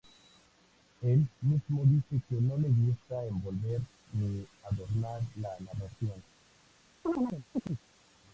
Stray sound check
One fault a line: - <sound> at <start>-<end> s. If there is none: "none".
- chirp at 7.0-7.8 s